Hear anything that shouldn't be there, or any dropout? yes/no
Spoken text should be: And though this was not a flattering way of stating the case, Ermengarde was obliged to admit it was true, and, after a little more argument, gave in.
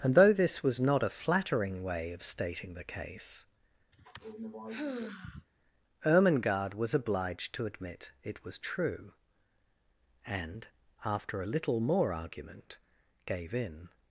yes